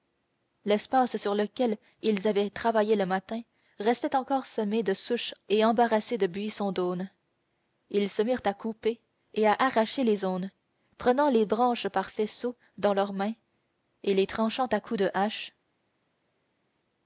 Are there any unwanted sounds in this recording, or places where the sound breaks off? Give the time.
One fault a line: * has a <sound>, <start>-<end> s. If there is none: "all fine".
all fine